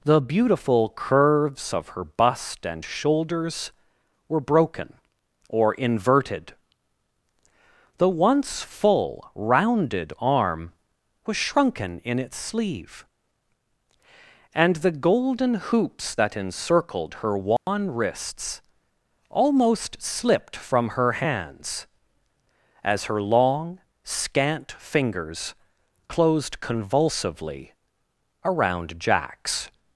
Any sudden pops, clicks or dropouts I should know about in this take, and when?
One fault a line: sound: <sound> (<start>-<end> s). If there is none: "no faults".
sound: dropout (17.6-17.7 s)